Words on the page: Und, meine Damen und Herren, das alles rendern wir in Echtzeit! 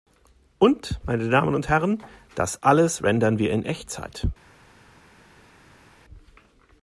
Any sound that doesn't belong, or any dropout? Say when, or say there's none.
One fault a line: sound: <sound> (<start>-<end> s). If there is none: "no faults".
no faults